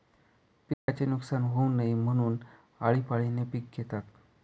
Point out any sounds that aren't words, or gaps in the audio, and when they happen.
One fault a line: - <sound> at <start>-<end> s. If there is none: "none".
- dropout at 0.7-0.9 s